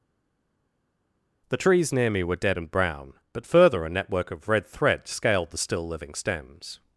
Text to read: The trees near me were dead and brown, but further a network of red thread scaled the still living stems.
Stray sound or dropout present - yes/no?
no